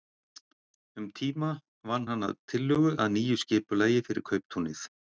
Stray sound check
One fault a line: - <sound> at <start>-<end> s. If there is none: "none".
none